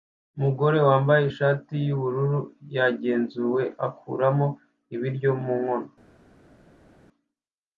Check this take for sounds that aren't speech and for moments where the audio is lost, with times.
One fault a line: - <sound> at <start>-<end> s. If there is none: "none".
none